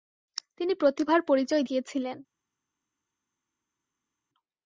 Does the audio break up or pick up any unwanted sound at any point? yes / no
no